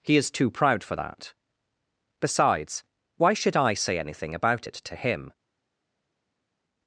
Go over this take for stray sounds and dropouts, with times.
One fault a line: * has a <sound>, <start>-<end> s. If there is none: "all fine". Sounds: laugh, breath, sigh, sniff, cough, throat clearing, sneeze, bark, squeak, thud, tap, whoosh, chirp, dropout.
all fine